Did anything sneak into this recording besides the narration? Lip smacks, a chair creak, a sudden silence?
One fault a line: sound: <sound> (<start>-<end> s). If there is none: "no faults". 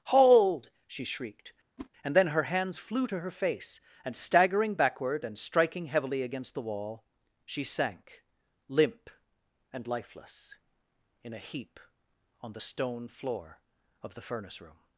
sound: whoosh (1.8-1.9 s)